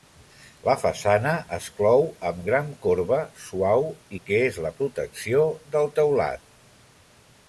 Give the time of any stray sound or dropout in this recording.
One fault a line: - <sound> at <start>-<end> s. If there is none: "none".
none